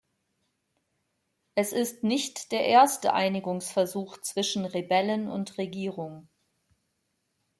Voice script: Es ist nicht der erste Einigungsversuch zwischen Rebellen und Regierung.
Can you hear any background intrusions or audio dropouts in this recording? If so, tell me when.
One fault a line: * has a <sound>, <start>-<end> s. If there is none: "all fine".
all fine